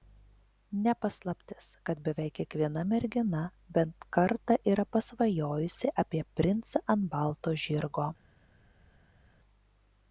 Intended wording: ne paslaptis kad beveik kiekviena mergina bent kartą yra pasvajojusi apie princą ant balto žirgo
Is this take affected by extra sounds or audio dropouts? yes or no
no